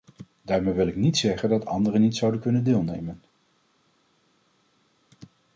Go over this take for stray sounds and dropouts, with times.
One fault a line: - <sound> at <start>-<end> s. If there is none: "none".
none